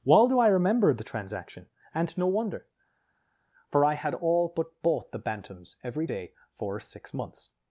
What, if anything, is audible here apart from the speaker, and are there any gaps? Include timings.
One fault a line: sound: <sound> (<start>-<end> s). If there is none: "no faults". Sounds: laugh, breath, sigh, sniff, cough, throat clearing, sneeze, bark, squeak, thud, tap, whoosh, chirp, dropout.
no faults